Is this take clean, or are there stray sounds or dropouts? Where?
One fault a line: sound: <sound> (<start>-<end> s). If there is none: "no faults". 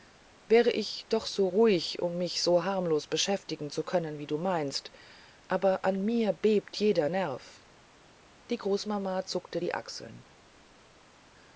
no faults